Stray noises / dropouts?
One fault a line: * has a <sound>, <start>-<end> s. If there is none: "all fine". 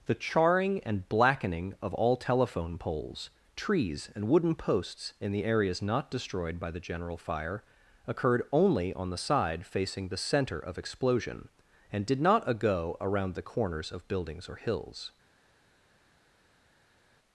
all fine